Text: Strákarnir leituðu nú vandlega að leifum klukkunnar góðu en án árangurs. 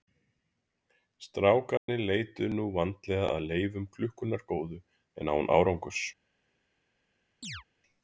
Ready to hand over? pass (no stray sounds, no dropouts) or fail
fail